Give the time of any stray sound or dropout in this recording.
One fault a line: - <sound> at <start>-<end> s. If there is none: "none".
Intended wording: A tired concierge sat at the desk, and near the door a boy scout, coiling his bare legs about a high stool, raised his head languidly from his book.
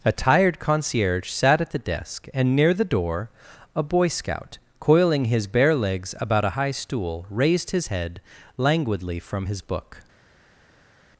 none